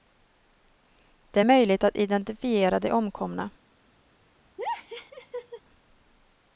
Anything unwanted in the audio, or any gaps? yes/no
yes